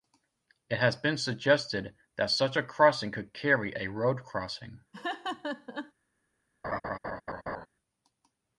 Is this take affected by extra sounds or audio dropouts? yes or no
yes